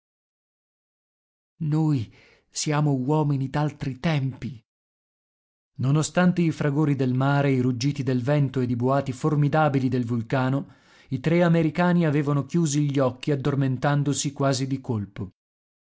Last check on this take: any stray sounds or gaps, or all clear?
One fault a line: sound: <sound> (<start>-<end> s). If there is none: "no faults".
no faults